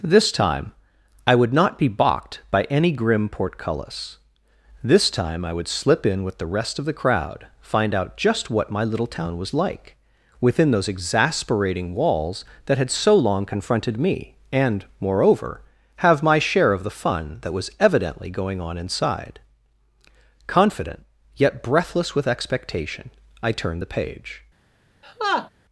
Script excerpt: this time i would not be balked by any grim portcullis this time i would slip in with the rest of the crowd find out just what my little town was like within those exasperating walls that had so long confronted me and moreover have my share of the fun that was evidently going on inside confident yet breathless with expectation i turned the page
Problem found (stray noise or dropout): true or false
true